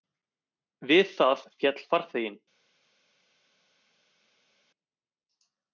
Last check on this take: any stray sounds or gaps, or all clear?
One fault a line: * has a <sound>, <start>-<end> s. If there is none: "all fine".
all fine